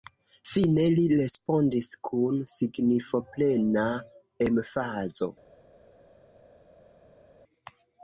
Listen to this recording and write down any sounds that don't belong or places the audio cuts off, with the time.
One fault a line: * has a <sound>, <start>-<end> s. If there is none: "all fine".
all fine